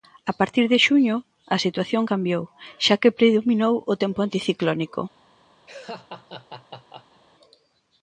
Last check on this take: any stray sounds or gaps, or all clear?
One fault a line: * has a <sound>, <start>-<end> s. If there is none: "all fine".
* has a laugh, 5.7-7.2 s